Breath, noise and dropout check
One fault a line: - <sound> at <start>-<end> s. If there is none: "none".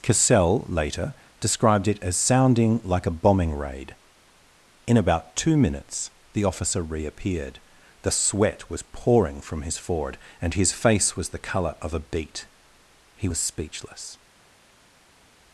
none